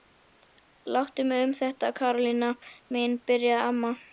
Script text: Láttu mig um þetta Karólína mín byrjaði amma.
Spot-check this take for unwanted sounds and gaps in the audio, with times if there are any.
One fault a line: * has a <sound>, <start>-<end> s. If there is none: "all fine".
all fine